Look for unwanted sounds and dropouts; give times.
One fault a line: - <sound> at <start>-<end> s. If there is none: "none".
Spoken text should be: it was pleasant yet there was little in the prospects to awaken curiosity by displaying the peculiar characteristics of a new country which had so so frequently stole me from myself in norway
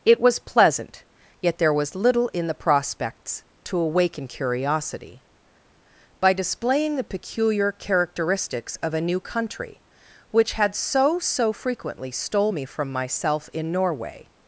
none